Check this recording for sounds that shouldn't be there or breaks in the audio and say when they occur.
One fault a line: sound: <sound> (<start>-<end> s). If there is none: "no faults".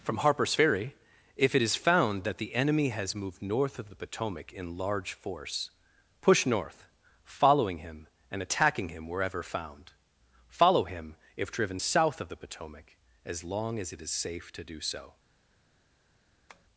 sound: tap (16.5-16.7 s)